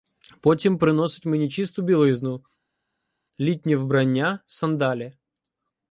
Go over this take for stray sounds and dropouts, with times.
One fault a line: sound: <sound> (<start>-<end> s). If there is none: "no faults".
no faults